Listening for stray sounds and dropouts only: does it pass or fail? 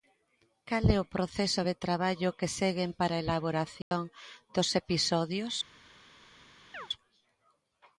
fail